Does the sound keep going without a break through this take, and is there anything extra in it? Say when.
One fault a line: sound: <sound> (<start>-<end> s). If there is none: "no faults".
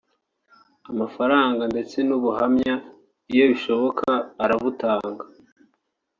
no faults